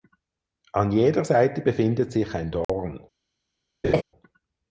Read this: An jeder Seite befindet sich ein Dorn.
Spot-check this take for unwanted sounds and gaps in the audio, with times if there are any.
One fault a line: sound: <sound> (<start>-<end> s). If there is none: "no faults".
sound: dropout (2.6-2.7 s)
sound: laugh (3.8-4.0 s)